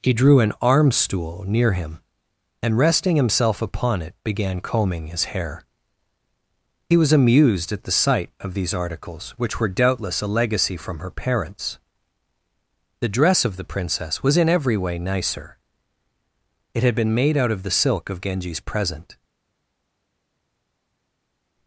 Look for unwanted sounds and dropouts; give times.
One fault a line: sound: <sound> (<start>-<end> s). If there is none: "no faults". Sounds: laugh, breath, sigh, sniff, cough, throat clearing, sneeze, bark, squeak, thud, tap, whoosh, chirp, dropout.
no faults